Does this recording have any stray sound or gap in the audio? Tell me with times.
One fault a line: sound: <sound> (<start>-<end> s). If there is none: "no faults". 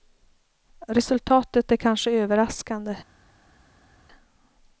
no faults